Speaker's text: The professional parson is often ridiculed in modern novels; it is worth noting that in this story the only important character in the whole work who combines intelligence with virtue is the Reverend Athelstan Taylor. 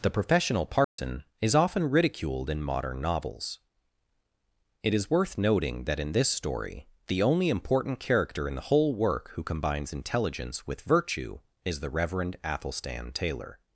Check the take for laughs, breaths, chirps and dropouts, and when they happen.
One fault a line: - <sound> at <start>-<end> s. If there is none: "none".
- dropout at 0.8-1.0 s